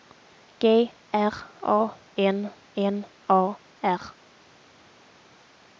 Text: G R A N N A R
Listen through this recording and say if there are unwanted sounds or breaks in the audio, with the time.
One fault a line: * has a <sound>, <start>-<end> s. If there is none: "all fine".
all fine